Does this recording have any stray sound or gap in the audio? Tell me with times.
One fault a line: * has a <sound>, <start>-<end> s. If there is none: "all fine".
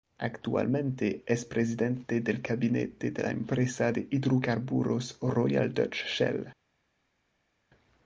all fine